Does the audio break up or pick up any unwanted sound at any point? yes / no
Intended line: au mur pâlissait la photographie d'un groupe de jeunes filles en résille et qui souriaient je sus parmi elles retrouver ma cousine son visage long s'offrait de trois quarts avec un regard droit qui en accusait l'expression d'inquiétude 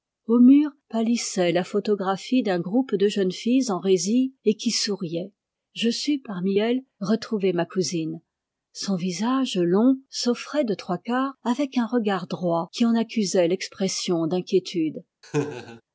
yes